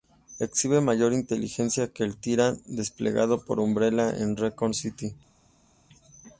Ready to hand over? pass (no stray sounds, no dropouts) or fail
pass